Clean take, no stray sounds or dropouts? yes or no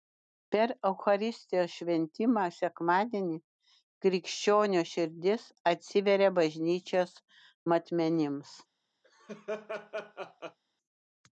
no